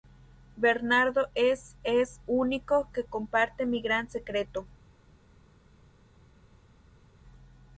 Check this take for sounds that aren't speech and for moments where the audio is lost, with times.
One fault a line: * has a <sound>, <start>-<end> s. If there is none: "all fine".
all fine